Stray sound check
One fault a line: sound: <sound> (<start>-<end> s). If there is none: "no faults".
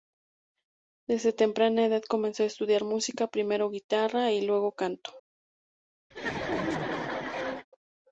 sound: laugh (6.1-7.7 s)